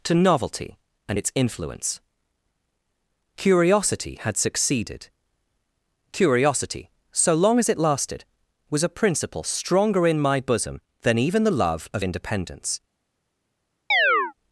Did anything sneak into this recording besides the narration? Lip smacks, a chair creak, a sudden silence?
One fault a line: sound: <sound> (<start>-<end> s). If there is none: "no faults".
sound: chirp (13.9-14.3 s)